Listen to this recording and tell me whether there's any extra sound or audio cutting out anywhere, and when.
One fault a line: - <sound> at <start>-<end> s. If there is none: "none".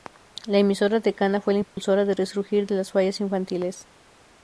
- dropout at 1.6-1.8 s